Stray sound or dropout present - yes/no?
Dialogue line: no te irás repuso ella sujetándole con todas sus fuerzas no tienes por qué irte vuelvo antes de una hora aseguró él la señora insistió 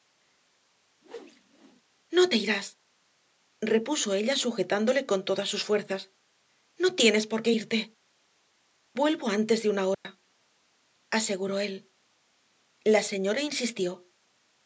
yes